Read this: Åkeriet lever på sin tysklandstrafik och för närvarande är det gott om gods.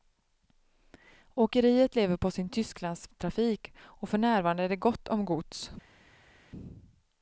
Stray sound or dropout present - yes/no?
no